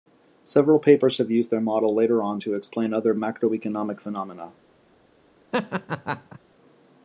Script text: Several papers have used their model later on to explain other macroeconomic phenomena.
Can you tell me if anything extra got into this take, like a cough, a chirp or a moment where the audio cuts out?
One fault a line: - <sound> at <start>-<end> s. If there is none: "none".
- laugh at 5.5-6.4 s